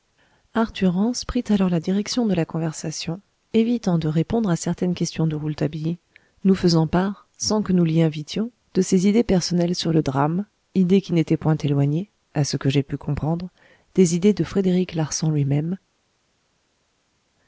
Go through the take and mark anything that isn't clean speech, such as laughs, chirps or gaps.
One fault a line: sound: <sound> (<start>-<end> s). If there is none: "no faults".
no faults